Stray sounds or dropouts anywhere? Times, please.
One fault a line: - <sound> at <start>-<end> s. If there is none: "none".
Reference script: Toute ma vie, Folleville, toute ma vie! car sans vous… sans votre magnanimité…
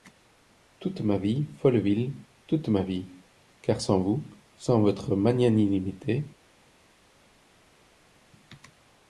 none